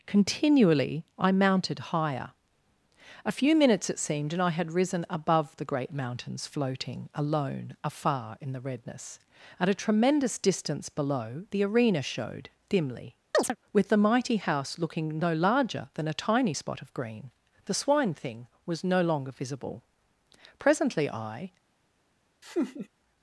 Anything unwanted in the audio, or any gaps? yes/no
yes